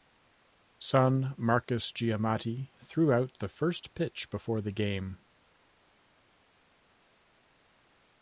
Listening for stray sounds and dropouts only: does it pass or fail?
pass